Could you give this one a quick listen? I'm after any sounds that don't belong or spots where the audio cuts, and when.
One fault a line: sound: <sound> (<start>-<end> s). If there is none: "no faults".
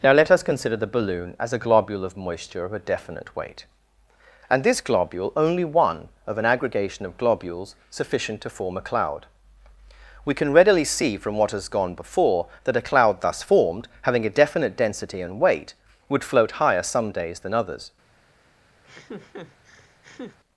sound: laugh (18.8-20.4 s)